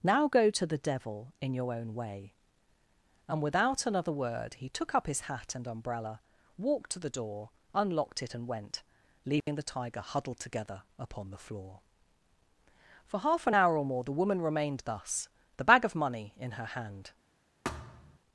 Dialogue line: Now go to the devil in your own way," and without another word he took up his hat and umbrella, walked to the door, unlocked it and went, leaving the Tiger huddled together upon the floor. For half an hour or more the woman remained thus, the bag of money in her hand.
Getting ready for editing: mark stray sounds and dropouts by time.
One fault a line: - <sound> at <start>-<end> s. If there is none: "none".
- dropout at 9.4-9.5 s
- thud at 17.6-18.2 s